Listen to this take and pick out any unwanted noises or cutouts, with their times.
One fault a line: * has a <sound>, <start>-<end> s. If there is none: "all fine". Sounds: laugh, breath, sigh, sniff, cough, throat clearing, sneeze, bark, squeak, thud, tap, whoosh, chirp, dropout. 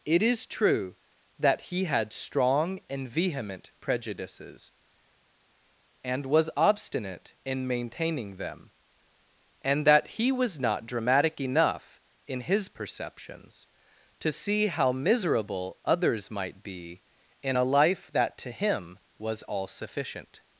all fine